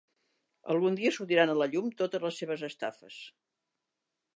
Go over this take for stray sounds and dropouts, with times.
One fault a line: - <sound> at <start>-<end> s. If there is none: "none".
none